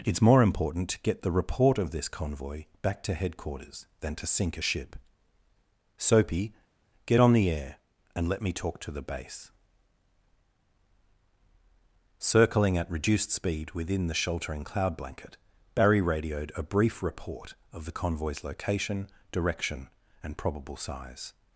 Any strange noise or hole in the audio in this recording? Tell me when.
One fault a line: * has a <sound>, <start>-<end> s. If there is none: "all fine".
all fine